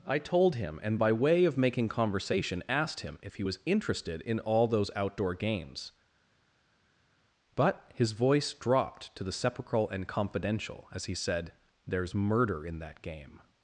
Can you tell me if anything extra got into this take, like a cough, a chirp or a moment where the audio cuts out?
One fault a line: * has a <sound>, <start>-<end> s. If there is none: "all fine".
all fine